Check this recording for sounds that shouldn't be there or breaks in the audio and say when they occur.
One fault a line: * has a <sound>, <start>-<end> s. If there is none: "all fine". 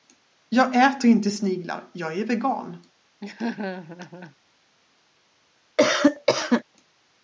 * has a laugh, 3.2-4.4 s
* has a cough, 5.8-6.6 s